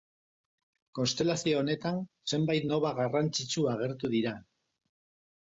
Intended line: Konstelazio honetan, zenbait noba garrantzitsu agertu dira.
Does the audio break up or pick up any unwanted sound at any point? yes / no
no